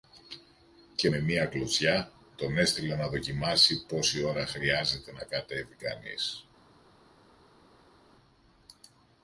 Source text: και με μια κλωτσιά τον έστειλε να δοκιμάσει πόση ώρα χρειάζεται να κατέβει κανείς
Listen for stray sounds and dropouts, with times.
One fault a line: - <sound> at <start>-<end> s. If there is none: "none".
none